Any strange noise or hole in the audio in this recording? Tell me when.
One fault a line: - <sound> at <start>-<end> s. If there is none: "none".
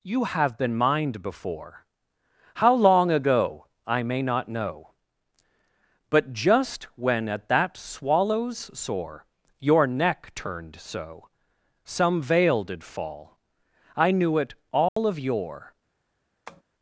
- dropout at 14.9-15.0 s
- tap at 16.5-16.6 s